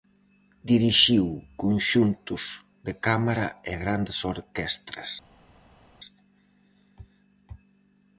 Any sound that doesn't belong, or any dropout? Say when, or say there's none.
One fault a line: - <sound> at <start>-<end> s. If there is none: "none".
none